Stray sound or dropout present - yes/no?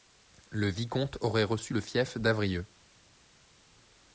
no